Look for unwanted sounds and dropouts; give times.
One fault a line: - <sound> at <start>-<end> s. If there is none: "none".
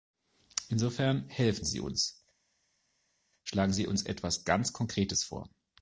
none